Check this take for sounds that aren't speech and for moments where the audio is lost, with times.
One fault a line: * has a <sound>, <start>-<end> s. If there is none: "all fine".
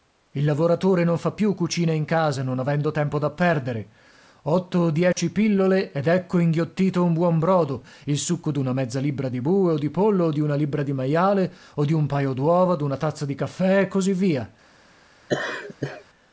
* has a dropout, 5.1-5.2 s
* has a laugh, 15.3-16.0 s